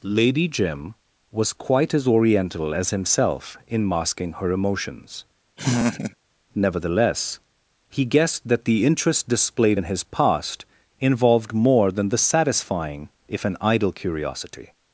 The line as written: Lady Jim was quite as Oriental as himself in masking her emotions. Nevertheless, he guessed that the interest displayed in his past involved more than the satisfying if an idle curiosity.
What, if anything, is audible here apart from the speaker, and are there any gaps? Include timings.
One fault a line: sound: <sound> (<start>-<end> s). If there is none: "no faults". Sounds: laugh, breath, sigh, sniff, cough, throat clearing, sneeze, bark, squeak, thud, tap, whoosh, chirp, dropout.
sound: laugh (5.6-6.2 s)